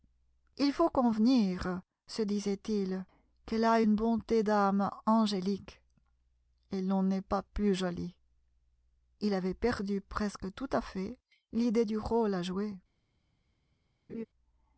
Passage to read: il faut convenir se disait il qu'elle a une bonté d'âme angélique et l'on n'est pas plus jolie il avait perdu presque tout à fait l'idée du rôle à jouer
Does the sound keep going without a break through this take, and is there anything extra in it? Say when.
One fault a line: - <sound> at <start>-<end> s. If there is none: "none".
- laugh at 14.1-14.3 s